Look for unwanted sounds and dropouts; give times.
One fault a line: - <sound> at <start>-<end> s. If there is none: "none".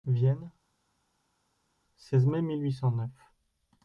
none